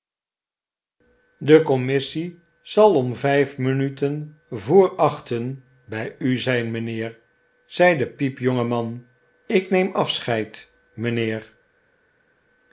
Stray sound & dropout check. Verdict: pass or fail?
pass